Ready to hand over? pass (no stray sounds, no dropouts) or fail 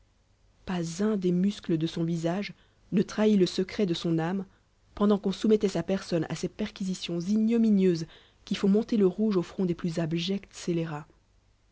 pass